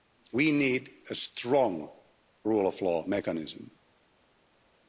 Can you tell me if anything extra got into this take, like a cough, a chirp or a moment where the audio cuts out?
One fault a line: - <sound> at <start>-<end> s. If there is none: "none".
none